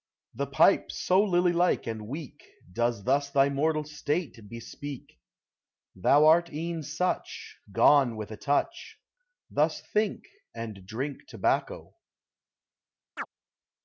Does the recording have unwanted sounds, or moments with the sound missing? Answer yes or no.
yes